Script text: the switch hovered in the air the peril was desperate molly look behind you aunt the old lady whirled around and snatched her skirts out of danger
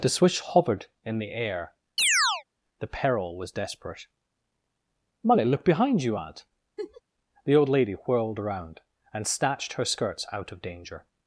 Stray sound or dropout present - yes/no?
yes